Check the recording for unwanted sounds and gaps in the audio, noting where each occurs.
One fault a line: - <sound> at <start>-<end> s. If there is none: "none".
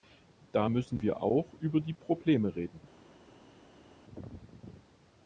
none